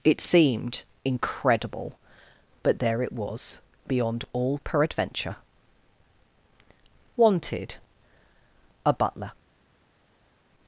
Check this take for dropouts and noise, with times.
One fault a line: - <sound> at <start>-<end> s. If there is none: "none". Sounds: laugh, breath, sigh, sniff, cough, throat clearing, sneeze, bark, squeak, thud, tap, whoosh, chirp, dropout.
none